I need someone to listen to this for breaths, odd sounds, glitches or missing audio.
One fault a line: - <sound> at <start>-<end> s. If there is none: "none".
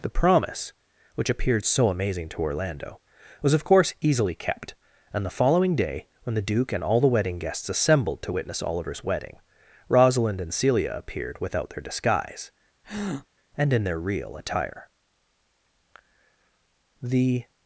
- breath at 12.8-13.3 s